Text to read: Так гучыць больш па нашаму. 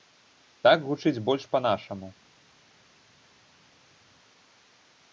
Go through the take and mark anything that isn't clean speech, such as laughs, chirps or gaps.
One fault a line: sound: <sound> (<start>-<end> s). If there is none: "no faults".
no faults